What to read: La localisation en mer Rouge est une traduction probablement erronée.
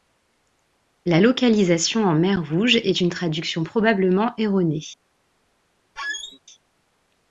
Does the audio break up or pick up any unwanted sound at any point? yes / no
yes